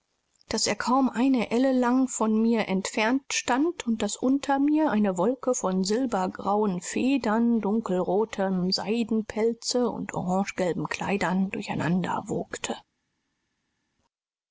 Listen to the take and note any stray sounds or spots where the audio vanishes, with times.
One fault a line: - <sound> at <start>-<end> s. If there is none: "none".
none